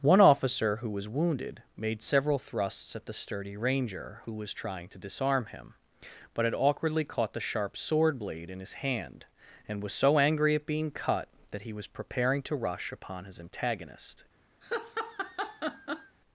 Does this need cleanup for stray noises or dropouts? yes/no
yes